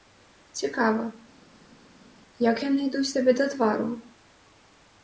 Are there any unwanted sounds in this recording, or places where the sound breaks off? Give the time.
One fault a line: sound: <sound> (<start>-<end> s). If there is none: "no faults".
no faults